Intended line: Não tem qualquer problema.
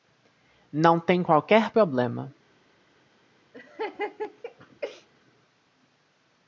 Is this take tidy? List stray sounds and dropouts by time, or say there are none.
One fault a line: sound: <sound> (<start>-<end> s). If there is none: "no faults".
sound: laugh (3.5-5.1 s)